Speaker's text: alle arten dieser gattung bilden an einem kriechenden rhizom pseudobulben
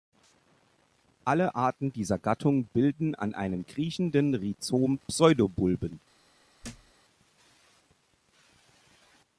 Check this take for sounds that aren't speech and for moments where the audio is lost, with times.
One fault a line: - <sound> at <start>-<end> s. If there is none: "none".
- thud at 6.6-6.9 s